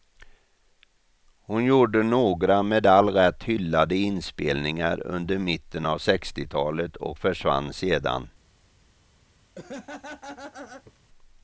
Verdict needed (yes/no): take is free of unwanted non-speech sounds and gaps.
no